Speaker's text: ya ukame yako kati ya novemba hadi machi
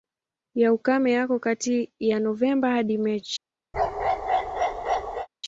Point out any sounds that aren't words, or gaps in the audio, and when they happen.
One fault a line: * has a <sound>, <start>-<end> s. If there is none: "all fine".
* has a bark, 3.7-5.3 s